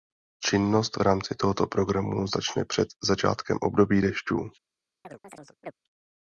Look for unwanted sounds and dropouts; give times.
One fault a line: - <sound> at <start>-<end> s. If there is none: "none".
- chirp at 5.0-5.7 s